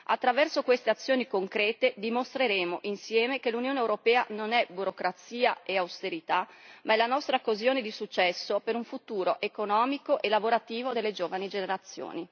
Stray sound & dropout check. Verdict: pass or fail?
pass